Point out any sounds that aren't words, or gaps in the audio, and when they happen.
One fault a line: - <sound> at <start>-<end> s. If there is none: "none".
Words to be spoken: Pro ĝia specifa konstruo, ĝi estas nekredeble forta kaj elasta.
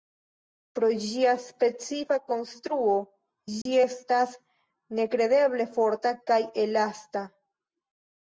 - dropout at 3.6-3.7 s